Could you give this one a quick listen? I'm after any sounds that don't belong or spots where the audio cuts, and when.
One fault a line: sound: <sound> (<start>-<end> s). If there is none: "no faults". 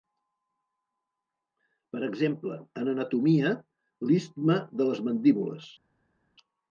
no faults